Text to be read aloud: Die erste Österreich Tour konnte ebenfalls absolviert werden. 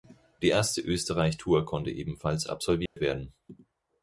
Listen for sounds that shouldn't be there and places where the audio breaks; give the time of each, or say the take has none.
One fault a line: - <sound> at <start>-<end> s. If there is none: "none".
- dropout at 2.9-3.0 s